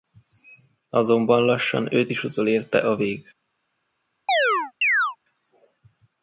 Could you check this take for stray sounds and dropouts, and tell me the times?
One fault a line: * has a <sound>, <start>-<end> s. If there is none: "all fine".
* has a chirp, 4.3-5.2 s